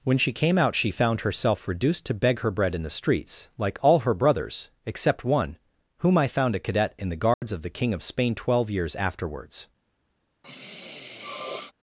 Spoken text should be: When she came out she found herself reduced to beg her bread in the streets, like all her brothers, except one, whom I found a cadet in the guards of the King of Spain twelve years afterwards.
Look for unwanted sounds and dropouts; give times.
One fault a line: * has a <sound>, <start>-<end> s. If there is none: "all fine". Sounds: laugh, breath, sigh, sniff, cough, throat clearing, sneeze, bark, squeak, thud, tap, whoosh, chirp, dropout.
* has a dropout, 7.3-7.4 s
* has a sniff, 10.4-11.7 s